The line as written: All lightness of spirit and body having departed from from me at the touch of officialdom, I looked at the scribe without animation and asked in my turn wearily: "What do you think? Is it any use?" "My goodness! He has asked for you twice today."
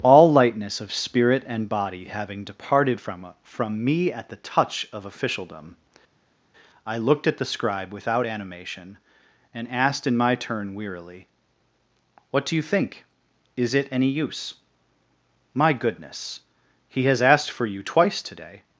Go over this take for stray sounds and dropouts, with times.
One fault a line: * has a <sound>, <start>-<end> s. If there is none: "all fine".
all fine